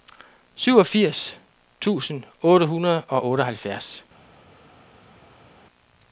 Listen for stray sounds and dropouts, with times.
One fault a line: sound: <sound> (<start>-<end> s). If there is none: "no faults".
no faults